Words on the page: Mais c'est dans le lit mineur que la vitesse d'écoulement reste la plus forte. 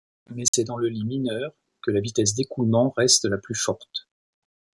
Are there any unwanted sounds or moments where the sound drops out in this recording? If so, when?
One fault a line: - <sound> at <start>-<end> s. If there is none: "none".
- dropout at 0.5-0.5 s